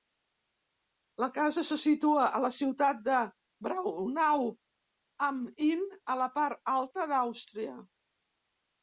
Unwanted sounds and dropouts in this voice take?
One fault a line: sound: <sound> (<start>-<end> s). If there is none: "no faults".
no faults